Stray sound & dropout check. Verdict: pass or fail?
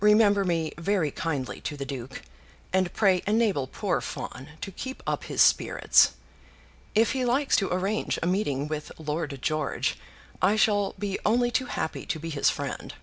pass